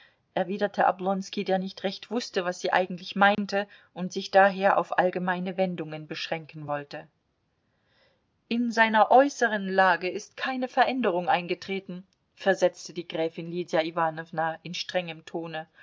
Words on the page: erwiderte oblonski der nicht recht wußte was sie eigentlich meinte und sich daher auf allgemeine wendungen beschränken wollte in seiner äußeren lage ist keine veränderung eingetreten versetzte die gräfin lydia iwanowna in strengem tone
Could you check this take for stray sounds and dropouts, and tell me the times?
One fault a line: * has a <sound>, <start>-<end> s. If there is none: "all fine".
* has a dropout, 3.3-3.4 s